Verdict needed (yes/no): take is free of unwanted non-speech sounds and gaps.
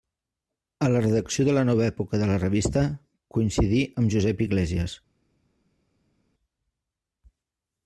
yes